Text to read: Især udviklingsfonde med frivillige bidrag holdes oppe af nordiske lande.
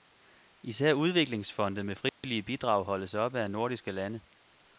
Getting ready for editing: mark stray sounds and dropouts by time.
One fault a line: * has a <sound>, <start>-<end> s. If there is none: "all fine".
* has a dropout, 2.1-2.2 s